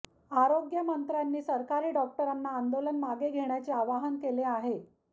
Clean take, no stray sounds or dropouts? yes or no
yes